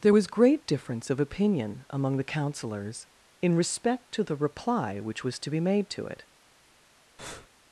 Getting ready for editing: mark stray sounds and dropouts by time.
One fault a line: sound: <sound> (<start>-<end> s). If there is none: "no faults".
sound: breath (7.2-7.5 s)